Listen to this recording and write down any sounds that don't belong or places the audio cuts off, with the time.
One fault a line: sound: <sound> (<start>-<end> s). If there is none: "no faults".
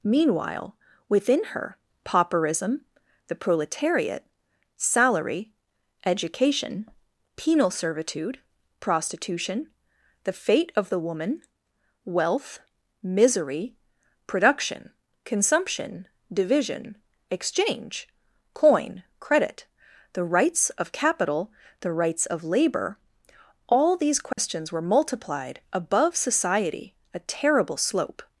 sound: dropout (24.3-24.4 s)